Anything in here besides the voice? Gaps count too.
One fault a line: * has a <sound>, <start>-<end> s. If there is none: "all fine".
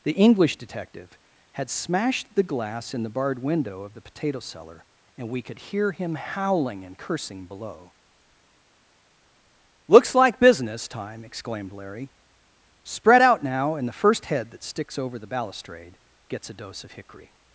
all fine